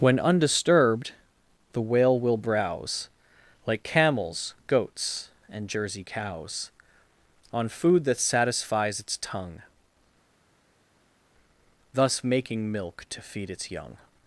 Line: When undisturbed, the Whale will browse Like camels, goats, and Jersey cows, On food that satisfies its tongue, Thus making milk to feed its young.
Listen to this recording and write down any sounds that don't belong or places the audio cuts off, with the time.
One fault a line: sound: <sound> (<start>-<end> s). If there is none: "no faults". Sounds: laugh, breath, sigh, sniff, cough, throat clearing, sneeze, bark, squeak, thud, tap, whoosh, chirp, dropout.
no faults